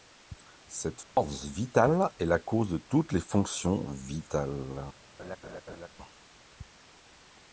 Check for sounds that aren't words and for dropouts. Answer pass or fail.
fail